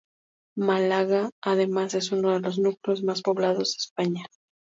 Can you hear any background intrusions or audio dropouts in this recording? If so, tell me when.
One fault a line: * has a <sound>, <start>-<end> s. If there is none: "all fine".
all fine